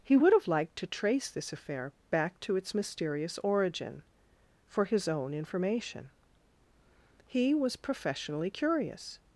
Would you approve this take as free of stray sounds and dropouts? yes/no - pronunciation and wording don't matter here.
yes